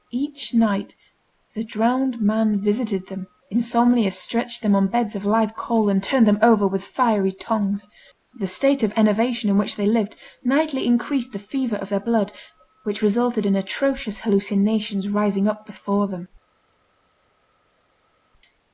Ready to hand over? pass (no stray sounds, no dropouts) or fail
pass